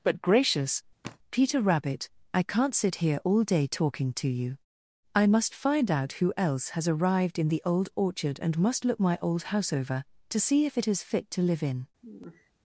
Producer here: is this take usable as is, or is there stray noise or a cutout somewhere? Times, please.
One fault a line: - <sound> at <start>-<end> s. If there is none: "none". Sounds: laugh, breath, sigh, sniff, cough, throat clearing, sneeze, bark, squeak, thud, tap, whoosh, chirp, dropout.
- sigh at 1.0-1.2 s
- sigh at 12.0-12.5 s